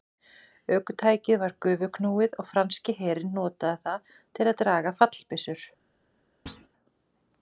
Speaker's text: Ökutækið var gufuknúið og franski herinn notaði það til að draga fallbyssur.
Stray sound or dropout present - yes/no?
yes